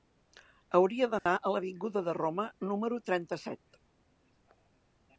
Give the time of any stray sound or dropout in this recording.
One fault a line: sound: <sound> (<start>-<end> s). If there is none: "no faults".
sound: dropout (1.2-1.3 s)